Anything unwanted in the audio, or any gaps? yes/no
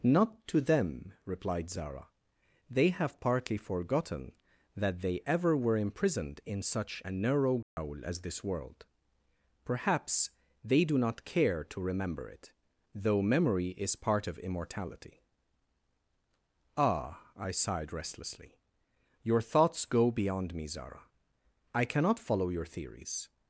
yes